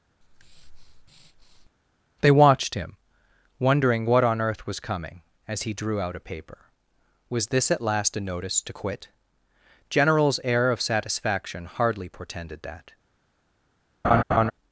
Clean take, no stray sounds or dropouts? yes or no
no